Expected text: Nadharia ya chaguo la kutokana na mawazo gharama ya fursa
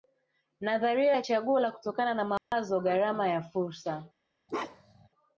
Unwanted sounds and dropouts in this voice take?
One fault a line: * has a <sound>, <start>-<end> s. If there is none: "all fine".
* has a dropout, 2.4-2.5 s
* has a bark, 4.5-5.1 s